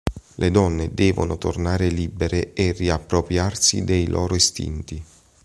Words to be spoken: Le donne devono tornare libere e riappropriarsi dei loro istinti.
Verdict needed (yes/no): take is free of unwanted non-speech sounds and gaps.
yes